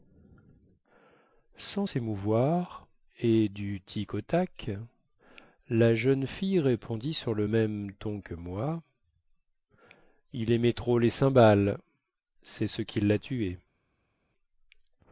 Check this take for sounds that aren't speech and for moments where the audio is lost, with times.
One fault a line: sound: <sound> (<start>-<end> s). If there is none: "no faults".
no faults